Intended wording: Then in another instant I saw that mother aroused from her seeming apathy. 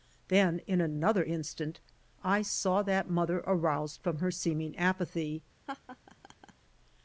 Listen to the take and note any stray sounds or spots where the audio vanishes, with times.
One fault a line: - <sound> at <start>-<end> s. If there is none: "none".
- laugh at 5.7-6.5 s